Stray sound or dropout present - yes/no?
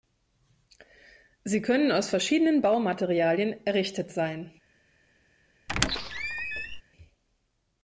yes